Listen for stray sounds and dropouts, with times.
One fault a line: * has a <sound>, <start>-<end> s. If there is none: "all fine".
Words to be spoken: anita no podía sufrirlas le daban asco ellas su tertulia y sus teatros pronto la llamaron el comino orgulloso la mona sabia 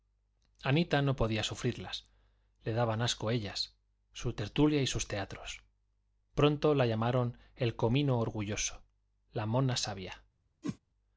* has a whoosh, 10.6-10.8 s